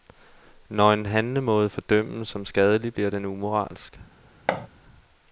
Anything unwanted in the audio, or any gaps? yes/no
yes